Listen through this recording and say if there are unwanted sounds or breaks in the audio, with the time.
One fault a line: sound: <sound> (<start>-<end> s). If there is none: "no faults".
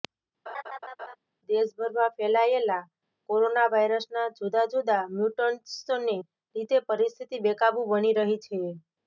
sound: laugh (0.5-1.2 s)